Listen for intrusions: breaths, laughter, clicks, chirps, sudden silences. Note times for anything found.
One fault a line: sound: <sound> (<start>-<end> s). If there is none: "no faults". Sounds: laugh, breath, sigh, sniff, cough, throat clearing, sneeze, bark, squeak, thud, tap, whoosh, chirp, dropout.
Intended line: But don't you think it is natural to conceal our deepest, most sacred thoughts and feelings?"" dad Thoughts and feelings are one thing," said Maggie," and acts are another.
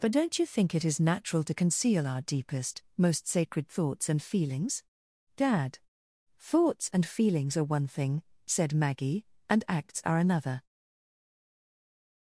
no faults